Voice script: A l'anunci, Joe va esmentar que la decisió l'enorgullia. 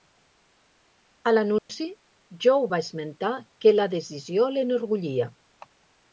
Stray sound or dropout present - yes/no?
yes